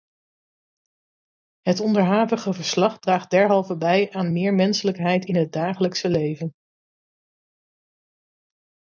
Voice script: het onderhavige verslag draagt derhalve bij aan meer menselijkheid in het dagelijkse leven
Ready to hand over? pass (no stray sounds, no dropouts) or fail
pass